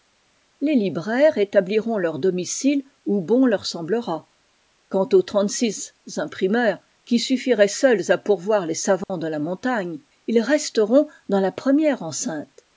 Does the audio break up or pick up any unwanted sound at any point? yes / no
yes